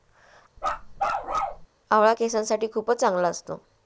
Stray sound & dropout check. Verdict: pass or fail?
fail